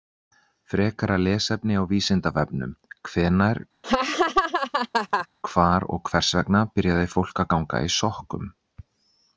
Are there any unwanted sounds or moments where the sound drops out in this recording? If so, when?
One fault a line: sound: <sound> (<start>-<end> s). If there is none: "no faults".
sound: laugh (3.8-5.3 s)